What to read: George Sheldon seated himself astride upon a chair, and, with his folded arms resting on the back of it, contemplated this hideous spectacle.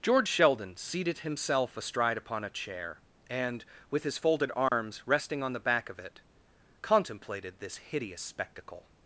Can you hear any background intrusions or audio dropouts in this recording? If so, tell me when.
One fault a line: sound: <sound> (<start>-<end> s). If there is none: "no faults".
sound: dropout (4.7-4.7 s)